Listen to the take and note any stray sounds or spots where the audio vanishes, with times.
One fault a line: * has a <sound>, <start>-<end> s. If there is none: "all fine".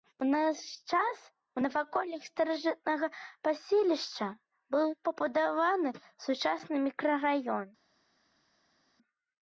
all fine